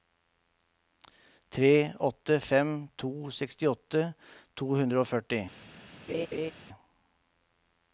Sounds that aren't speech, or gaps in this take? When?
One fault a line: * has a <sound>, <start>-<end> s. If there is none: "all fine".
* has a laugh, 6.1-6.5 s